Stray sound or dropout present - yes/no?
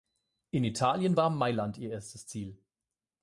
no